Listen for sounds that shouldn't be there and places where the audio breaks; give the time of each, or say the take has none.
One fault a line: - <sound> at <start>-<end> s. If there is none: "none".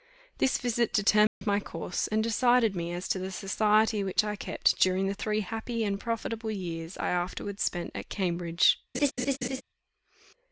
- dropout at 1.3-1.4 s
- laugh at 8.9-9.6 s